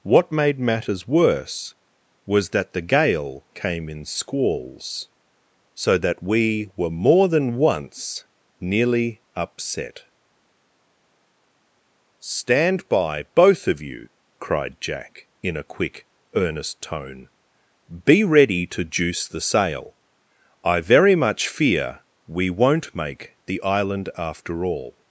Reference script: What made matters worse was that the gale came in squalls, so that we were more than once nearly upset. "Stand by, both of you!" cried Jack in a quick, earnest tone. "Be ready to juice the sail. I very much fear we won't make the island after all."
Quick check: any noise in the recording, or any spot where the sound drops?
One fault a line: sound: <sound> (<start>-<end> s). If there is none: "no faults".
no faults